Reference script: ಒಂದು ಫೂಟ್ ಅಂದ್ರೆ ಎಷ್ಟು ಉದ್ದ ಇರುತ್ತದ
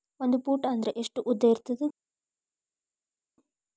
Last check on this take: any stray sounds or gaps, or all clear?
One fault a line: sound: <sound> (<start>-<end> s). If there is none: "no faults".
no faults